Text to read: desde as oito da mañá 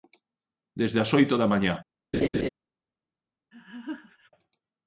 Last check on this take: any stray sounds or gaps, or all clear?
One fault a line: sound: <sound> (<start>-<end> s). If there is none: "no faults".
sound: laugh (2.1-2.5 s)
sound: laugh (3.5-4.3 s)